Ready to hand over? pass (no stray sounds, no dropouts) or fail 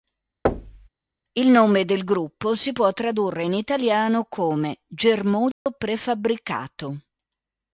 fail